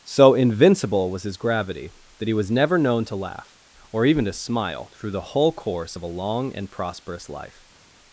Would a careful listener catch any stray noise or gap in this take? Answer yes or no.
no